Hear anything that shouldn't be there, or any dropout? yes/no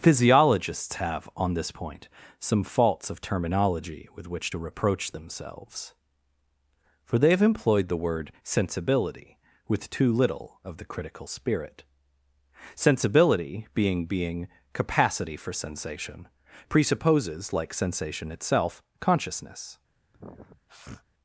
yes